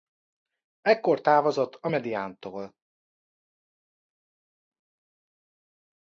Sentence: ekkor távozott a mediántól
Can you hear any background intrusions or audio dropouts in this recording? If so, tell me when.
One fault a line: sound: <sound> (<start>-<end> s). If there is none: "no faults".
no faults